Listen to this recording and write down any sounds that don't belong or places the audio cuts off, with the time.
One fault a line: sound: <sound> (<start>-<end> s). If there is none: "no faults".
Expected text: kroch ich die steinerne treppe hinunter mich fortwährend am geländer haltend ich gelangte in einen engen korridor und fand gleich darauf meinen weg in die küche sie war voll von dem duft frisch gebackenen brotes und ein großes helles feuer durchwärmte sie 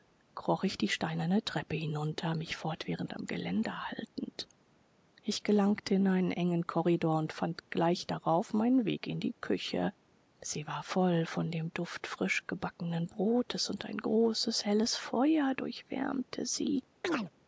sound: chirp (17.0-17.3 s)